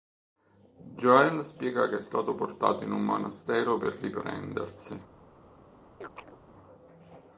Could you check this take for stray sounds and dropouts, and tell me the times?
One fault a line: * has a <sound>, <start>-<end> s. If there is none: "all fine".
* has a chirp, 6.0-6.4 s